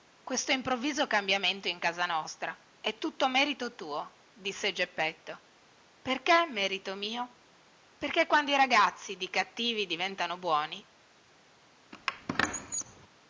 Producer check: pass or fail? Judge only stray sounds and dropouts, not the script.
fail